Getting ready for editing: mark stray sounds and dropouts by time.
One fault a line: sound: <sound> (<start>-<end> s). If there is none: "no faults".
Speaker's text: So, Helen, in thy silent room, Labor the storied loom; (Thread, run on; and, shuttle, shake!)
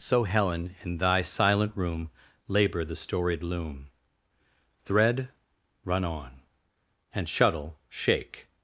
no faults